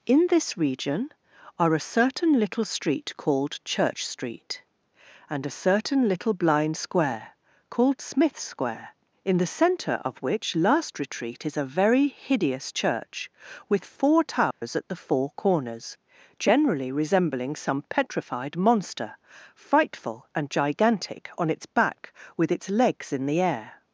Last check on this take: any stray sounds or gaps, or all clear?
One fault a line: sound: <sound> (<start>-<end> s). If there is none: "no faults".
sound: dropout (14.5-14.6 s)